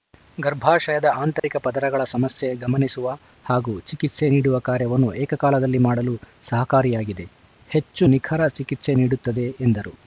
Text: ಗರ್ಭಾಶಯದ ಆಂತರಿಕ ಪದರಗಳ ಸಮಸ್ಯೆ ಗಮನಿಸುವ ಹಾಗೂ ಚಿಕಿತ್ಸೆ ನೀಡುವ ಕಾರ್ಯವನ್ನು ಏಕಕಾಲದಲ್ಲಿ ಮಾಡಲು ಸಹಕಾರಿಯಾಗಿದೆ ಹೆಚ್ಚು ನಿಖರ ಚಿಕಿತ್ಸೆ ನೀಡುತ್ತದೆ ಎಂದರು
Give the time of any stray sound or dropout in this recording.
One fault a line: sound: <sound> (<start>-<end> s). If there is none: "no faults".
sound: dropout (1.4-1.4 s)